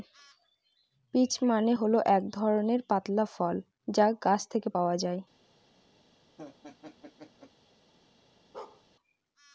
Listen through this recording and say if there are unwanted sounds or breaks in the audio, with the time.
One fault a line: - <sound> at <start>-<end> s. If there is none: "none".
- laugh at 6.4-7.5 s
- bark at 8.5-8.8 s